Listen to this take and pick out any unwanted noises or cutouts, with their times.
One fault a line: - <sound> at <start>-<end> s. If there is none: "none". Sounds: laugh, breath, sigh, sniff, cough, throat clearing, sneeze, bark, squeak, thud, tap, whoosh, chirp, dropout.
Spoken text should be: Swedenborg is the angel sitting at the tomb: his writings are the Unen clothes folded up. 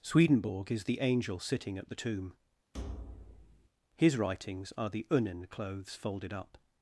- thud at 2.7-3.7 s